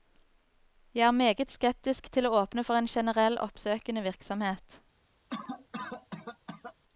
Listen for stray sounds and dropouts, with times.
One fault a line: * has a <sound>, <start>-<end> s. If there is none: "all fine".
* has a cough, 5.3-6.7 s